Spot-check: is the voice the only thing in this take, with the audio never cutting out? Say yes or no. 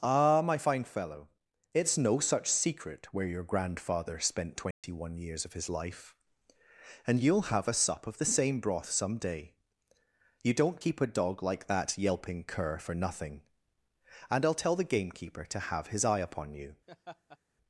no